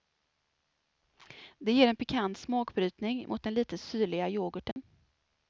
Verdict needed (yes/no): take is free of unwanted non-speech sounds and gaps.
no